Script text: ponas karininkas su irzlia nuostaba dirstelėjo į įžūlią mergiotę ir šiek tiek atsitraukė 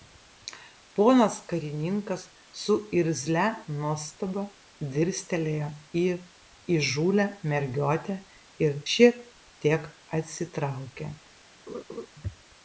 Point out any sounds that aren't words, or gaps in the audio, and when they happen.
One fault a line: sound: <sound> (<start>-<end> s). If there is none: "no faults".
sound: laugh (11.7-12.1 s)